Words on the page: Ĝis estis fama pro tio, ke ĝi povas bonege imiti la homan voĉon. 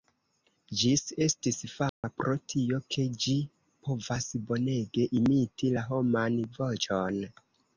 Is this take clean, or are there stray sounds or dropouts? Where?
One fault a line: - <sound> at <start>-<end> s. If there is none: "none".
- dropout at 1.9-2.0 s